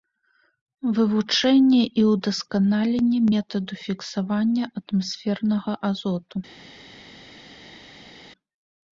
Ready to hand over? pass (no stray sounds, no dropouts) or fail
pass